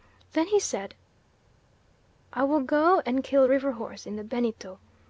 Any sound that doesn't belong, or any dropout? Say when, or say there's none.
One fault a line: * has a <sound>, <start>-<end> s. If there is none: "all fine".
all fine